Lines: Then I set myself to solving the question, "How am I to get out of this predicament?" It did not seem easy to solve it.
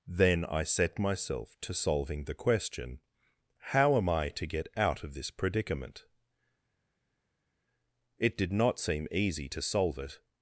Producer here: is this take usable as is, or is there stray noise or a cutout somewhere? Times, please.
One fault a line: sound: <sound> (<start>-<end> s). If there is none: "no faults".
no faults